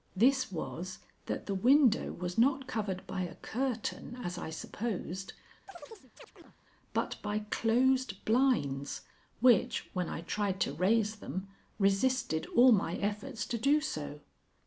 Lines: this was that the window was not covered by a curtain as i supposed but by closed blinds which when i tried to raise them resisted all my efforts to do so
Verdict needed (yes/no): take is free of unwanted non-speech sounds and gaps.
no